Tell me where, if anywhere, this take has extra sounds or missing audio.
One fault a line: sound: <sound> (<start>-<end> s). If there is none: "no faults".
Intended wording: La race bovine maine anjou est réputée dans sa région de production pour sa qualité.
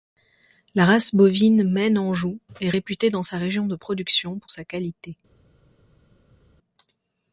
no faults